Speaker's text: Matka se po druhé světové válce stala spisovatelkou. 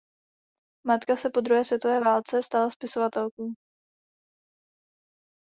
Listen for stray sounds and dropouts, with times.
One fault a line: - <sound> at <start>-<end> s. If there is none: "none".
none